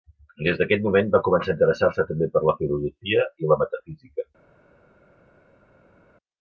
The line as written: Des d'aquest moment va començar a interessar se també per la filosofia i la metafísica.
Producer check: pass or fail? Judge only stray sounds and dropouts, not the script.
pass